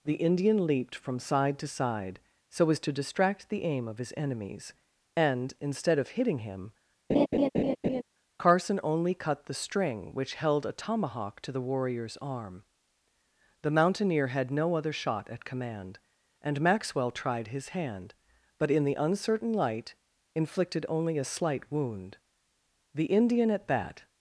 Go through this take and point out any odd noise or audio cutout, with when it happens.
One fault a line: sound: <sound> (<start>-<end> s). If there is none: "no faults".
sound: laugh (7.1-8.0 s)